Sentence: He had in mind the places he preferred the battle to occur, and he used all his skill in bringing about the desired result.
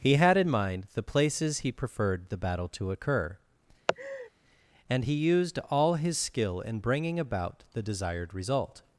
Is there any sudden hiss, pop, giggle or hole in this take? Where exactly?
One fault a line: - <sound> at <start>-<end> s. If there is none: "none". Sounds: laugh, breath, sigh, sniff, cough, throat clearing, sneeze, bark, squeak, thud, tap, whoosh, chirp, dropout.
- laugh at 3.9-4.3 s